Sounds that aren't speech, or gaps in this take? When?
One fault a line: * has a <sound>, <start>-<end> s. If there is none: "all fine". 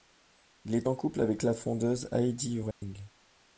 * has a dropout, 2.7-2.8 s